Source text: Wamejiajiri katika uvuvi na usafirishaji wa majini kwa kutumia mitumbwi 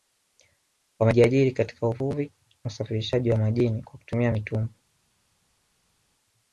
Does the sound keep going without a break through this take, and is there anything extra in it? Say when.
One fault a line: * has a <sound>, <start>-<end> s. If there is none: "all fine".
all fine